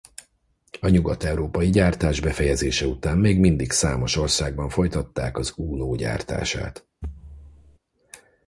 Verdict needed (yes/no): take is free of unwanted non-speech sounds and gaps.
no